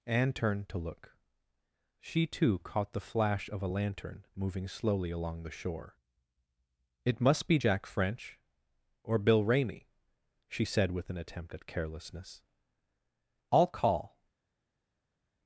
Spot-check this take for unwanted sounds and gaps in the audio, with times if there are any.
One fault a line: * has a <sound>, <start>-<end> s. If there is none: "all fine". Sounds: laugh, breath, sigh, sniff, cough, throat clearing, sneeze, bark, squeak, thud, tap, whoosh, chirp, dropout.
all fine